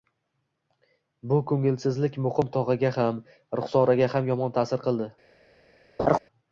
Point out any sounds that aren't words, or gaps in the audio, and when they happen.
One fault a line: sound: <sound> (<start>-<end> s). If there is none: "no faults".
sound: laugh (6.0-6.2 s)